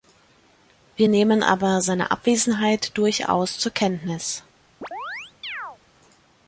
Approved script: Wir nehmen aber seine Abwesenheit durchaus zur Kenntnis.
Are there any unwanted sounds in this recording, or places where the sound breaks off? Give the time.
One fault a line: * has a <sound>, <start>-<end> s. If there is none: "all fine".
* has a chirp, 4.8-5.8 s